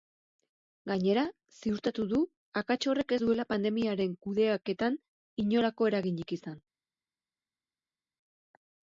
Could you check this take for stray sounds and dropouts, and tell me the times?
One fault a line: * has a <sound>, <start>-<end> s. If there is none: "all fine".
all fine